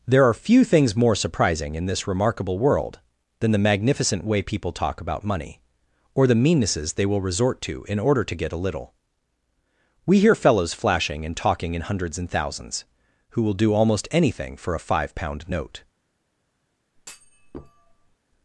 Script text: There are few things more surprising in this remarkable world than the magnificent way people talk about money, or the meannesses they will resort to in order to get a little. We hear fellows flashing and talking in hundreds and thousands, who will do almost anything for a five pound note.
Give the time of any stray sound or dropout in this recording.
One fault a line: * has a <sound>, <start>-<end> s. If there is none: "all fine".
* has a thud, 17.0-18.2 s